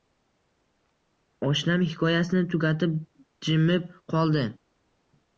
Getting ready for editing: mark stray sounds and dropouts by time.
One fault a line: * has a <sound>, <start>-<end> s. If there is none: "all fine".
all fine